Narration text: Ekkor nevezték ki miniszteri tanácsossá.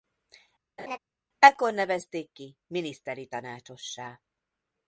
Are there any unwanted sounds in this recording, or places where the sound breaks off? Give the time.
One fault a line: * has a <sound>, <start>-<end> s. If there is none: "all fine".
* has a laugh, 0.8-1.0 s